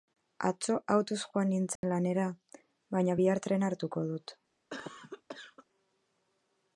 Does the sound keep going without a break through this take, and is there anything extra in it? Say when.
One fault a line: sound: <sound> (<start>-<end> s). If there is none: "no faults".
sound: dropout (1.8-1.8 s)
sound: cough (4.7-5.7 s)